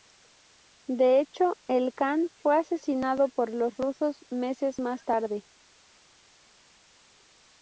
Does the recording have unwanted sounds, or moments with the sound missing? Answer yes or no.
no